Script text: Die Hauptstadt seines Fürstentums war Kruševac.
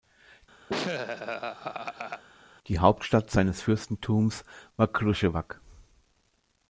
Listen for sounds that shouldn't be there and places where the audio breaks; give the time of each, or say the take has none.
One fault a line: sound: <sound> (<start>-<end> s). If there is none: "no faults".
sound: laugh (0.7-2.2 s)